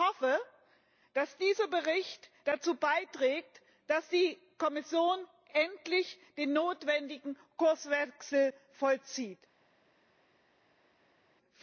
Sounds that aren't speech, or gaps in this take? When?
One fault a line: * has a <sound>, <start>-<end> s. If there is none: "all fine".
all fine